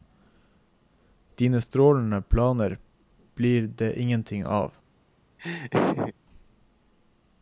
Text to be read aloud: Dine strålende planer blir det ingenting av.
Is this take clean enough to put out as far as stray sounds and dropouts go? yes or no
no